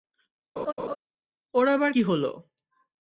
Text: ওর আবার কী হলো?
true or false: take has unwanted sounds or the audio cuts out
true